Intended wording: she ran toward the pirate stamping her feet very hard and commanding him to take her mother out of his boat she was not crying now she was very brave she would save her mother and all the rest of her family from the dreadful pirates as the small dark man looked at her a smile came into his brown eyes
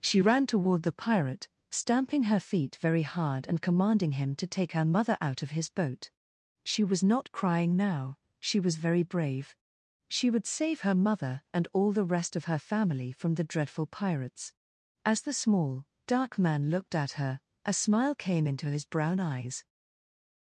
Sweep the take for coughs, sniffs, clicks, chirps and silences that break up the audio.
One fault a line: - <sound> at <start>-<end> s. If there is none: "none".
none